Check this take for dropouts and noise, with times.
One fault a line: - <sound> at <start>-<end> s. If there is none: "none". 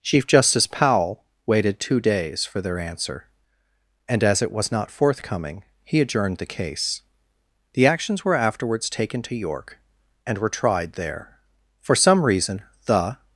none